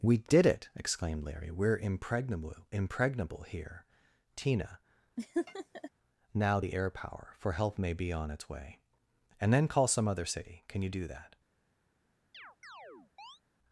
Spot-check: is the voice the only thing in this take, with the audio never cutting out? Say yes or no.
no